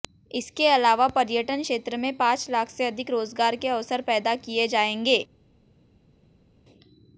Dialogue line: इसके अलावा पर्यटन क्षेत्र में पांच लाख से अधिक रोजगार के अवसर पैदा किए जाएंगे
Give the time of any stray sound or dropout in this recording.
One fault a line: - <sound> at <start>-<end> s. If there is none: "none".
none